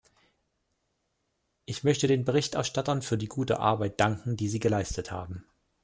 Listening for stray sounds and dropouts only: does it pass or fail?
pass